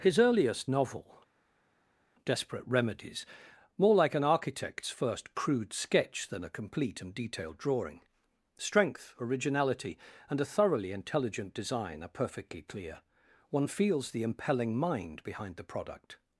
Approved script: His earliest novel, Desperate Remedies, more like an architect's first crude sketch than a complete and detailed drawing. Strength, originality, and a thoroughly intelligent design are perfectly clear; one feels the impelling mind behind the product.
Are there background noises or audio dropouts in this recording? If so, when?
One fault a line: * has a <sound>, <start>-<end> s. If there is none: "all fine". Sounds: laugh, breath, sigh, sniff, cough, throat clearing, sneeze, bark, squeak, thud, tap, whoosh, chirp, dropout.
all fine